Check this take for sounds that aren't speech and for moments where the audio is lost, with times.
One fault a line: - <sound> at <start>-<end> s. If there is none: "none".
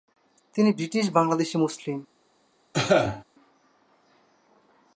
- cough at 2.7-3.2 s